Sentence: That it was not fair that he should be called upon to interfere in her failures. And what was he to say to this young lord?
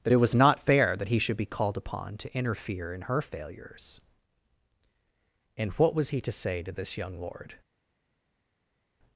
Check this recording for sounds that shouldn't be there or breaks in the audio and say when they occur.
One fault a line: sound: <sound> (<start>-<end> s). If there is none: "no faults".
no faults